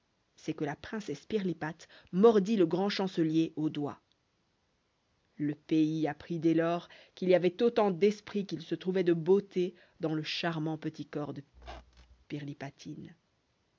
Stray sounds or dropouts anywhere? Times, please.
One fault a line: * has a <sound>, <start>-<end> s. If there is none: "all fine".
* has a squeak, 11.5-12.2 s